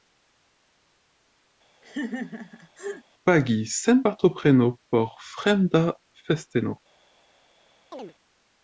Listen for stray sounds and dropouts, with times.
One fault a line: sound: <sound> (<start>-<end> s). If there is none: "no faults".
sound: laugh (1.8-3.0 s)
sound: chirp (7.9-8.1 s)